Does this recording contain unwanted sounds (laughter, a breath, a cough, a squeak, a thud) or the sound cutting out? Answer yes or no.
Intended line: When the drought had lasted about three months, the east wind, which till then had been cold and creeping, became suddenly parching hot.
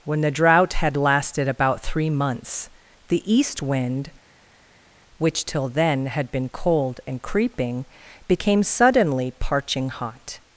no